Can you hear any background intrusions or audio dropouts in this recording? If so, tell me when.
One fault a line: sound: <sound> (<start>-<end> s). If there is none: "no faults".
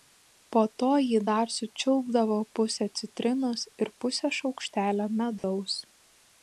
sound: dropout (5.4-5.4 s)